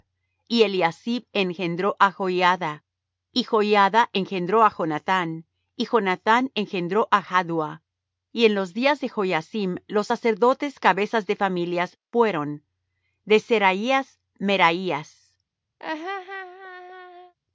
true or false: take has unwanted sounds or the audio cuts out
true